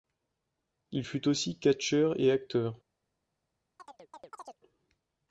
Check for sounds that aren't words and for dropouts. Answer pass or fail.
fail